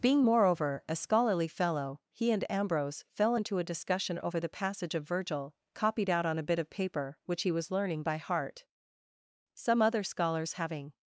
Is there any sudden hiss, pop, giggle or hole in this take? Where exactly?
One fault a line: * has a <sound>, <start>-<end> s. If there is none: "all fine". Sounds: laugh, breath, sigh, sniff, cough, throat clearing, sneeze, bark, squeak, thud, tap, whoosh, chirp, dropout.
all fine